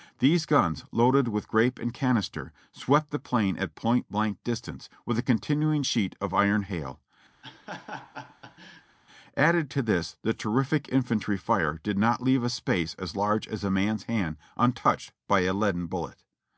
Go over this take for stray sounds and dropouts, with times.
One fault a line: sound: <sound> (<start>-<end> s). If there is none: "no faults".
sound: laugh (7.4-9.0 s)